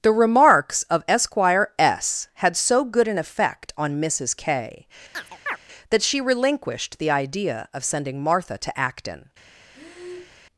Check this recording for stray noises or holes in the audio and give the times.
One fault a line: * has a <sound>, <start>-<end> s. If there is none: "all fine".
* has a chirp, 5.1-5.6 s
* has a breath, 9.7-10.4 s